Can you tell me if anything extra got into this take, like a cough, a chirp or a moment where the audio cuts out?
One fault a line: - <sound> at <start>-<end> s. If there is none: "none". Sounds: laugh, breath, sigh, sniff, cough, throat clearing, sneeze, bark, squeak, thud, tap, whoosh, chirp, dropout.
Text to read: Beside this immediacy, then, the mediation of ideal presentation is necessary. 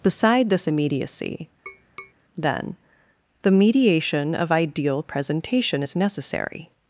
- tap at 1.7-2.1 s